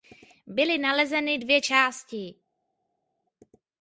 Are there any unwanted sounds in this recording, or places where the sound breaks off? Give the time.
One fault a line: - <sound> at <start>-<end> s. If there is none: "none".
none